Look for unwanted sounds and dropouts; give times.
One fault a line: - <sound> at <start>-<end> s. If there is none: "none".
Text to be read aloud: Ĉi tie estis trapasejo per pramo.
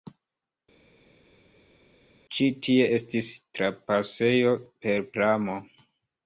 none